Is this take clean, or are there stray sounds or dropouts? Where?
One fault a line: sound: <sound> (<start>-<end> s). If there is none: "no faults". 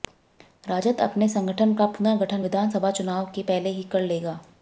no faults